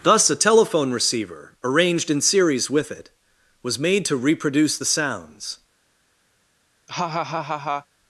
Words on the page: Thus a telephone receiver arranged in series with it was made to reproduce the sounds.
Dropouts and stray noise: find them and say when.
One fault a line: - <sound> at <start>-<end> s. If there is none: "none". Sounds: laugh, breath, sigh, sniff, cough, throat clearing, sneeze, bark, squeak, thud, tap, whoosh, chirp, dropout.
- laugh at 6.9-7.9 s